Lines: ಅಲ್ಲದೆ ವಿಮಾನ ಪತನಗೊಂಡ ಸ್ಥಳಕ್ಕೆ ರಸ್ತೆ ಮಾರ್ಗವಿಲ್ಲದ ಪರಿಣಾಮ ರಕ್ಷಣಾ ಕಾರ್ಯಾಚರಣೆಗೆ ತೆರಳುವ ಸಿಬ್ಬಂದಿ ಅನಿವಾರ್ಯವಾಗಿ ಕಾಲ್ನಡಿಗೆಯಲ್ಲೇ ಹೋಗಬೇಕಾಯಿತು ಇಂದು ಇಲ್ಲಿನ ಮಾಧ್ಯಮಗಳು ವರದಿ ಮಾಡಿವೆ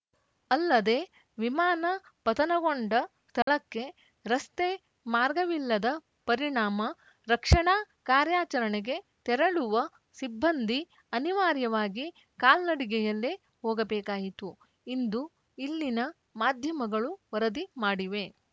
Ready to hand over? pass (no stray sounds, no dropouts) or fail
fail